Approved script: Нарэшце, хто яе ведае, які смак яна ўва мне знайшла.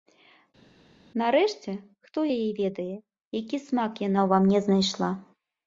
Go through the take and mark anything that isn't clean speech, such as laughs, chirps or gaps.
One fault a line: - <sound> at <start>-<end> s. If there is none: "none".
none